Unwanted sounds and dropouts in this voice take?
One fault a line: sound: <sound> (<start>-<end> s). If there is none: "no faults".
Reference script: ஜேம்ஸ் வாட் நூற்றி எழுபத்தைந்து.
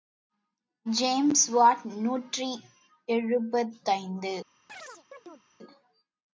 sound: chirp (4.7-5.4 s)